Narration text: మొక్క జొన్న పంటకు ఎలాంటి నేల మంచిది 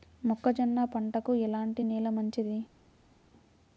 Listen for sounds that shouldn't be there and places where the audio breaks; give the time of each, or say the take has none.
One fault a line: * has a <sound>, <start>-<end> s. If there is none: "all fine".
all fine